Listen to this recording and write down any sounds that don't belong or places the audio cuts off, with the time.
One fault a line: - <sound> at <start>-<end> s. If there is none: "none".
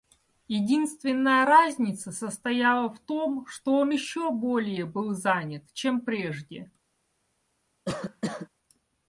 - cough at 7.9-8.5 s